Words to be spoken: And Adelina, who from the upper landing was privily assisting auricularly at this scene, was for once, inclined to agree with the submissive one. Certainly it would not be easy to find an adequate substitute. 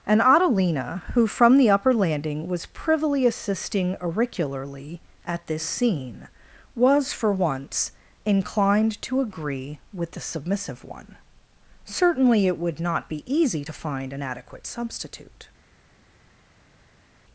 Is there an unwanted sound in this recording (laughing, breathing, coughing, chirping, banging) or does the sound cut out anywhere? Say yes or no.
no